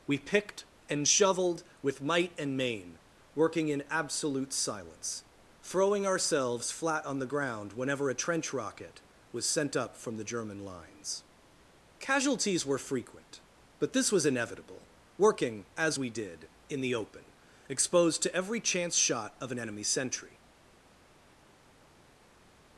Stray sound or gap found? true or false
false